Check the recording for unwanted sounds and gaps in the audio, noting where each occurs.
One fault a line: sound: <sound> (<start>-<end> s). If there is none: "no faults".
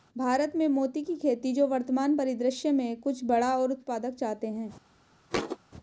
sound: thud (5.3-5.6 s)